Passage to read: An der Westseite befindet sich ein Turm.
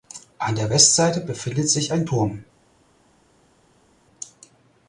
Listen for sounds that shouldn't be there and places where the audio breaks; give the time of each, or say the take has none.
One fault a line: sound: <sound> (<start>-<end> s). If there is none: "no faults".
no faults